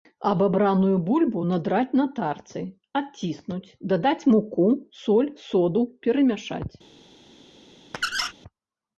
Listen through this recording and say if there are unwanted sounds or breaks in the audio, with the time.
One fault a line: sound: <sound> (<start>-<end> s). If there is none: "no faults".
sound: squeak (7.9-8.3 s)